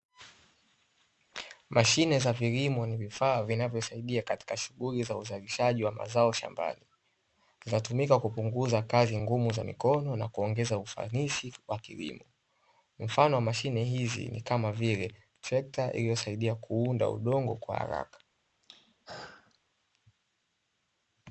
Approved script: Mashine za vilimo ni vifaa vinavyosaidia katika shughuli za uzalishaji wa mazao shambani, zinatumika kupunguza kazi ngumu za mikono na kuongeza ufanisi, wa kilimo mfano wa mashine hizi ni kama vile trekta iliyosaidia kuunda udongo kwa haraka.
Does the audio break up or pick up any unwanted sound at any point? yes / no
yes